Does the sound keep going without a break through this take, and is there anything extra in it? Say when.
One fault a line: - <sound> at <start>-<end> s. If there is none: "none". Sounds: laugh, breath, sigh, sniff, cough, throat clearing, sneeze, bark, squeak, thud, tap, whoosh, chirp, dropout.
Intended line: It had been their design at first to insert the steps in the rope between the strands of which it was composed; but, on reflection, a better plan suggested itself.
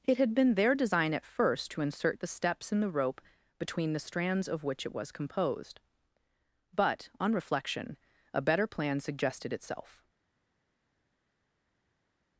none